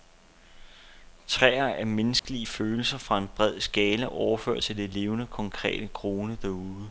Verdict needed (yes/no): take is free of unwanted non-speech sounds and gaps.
no